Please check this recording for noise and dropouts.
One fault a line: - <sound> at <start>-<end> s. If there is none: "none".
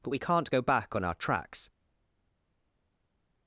none